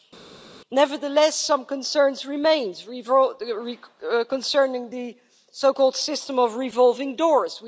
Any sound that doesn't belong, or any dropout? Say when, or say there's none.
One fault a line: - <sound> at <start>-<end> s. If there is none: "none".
none